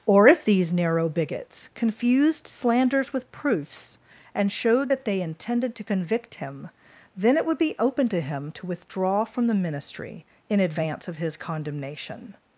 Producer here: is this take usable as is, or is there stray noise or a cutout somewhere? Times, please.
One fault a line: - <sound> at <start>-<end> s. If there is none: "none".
none